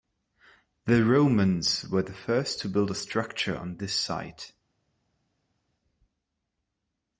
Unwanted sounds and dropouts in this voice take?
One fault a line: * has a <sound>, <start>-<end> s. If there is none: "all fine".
all fine